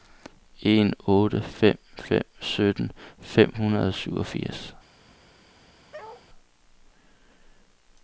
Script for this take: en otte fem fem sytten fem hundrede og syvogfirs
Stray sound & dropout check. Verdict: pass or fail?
fail